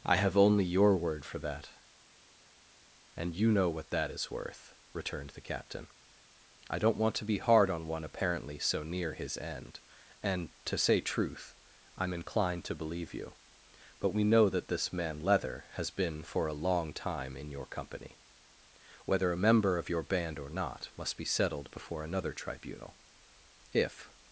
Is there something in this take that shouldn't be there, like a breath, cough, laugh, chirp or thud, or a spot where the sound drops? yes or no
no